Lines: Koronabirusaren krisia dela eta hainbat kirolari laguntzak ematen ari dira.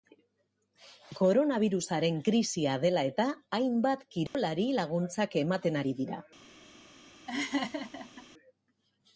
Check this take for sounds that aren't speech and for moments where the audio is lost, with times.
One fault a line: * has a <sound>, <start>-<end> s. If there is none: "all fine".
* has a dropout, 4.3-4.3 s
* has a laugh, 7.3-8.3 s